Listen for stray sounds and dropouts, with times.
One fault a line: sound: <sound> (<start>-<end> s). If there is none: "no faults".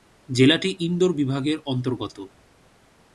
no faults